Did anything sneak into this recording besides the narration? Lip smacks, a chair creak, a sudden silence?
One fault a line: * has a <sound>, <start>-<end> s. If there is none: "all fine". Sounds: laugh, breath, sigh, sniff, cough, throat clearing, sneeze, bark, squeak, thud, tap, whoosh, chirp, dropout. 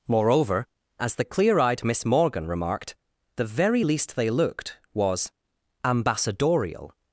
all fine